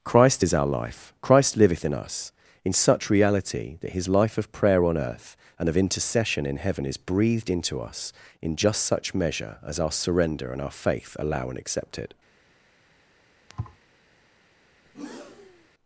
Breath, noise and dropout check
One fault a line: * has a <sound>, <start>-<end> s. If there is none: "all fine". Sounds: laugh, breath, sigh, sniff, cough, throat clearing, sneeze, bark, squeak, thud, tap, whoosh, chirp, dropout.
* has a thud, 13.5-13.8 s
* has a breath, 14.9-15.7 s